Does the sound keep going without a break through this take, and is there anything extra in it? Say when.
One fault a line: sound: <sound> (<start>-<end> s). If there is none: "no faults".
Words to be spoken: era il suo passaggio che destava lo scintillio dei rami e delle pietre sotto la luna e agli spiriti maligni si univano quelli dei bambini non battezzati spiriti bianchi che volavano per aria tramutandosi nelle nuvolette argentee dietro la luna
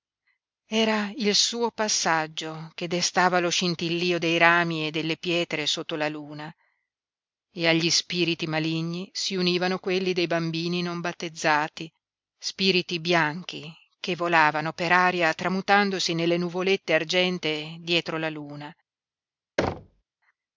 sound: thud (19.6-20.0 s)